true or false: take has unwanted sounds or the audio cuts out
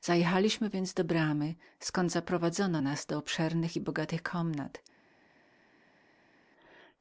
false